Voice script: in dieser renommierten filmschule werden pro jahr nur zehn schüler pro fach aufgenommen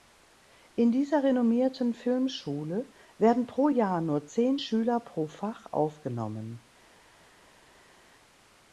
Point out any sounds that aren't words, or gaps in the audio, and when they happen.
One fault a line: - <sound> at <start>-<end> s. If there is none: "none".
none